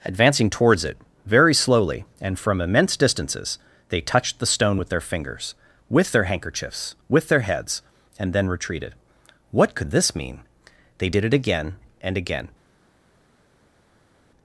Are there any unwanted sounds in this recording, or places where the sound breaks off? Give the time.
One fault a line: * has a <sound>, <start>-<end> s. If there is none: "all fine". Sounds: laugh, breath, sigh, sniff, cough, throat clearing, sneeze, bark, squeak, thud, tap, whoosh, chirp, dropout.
all fine